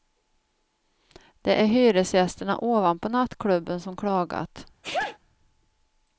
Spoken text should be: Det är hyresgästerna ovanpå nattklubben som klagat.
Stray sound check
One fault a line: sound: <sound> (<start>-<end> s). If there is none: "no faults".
sound: sneeze (4.8-5.2 s)